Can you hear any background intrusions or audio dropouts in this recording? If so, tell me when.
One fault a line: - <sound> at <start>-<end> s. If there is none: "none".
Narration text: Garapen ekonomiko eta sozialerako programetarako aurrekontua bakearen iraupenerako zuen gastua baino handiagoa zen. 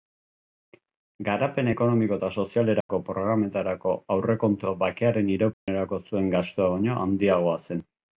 - dropout at 2.8-2.9 s
- dropout at 5.5-5.7 s